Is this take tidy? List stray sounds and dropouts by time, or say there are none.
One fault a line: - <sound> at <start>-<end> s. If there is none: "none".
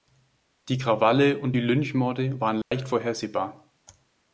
- dropout at 2.6-2.7 s